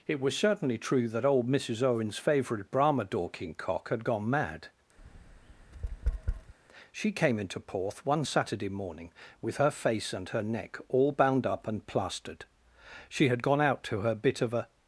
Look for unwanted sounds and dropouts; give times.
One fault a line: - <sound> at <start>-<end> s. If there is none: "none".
- tap at 5.0-6.5 s